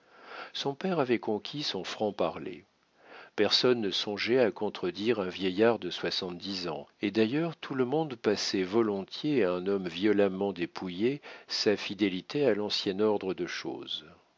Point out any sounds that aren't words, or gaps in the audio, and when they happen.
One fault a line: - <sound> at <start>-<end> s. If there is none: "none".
none